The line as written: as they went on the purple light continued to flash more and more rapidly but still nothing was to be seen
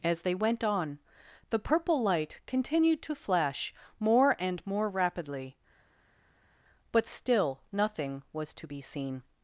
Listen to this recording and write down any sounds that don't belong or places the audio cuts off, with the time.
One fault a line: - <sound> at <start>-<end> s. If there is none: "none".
none